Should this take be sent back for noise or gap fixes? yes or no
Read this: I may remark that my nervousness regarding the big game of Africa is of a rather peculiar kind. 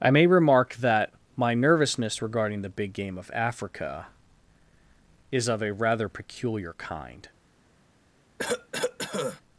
yes